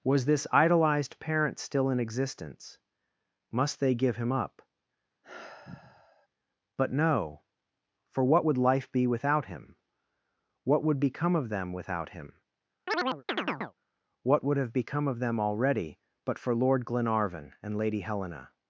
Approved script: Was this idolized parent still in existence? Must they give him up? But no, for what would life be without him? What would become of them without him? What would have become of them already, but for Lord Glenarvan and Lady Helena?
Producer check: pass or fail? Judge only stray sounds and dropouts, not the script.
fail